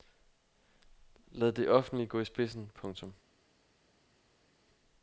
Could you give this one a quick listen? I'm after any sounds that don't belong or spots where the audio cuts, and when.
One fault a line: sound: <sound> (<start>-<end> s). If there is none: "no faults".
no faults